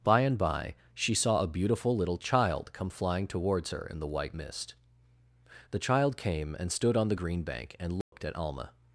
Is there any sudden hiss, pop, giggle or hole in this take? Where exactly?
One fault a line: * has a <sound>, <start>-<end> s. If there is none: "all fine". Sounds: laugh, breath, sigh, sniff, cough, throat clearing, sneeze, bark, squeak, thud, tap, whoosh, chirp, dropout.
* has a dropout, 8.0-8.1 s